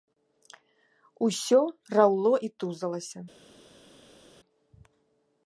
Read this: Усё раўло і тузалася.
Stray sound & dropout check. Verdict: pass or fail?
pass